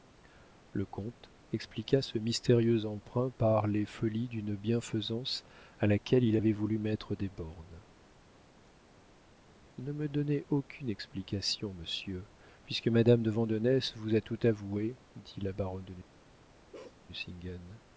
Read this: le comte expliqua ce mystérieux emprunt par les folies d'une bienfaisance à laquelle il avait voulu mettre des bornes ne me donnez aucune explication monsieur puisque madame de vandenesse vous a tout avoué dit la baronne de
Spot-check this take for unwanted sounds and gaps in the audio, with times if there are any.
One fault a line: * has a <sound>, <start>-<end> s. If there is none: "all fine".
* has a bark, 16.7-17.0 s